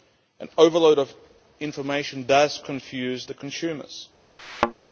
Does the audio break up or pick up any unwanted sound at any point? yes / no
yes